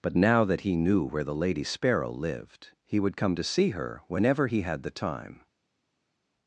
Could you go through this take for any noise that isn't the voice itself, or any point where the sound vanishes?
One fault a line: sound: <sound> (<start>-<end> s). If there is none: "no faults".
no faults